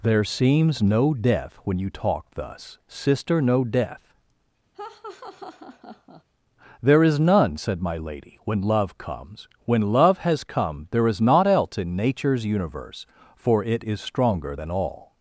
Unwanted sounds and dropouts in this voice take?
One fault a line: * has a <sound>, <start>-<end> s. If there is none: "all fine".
* has a laugh, 4.7-6.2 s